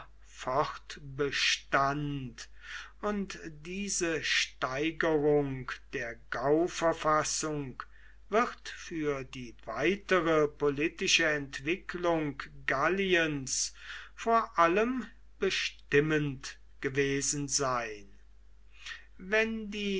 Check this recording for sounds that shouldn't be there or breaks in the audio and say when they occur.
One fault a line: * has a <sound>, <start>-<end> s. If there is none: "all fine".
all fine